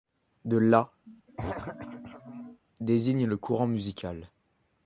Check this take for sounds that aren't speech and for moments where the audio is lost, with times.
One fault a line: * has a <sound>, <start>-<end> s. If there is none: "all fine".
* has a throat clearing, 1.1-2.6 s